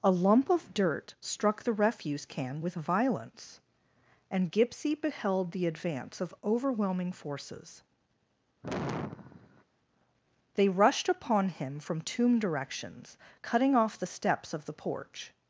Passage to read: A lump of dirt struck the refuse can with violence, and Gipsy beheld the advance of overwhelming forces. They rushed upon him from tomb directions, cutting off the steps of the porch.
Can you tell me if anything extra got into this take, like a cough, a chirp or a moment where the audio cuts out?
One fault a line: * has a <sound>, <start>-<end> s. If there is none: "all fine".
* has a sigh, 8.6-9.6 s